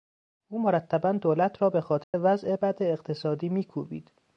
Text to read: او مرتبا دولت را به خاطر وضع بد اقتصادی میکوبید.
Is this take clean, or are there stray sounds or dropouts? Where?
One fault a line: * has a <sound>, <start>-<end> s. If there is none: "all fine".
* has a dropout, 2.0-2.1 s